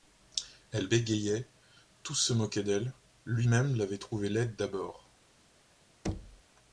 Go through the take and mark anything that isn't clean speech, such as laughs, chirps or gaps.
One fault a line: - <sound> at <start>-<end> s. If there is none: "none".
- thud at 6.0-6.4 s